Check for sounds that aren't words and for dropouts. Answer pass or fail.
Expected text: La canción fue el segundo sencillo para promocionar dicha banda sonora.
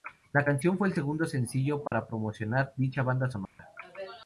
fail